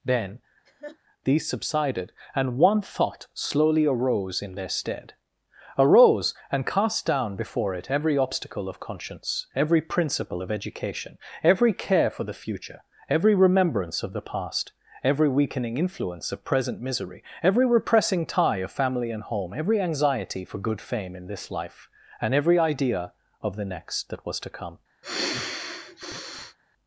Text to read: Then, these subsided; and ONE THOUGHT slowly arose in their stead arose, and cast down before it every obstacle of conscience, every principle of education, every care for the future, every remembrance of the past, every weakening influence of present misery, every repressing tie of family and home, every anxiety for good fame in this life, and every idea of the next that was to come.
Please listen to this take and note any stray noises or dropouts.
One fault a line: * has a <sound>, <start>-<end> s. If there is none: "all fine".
* has a laugh, 0.7-1.0 s
* has a sigh, 25.0-26.6 s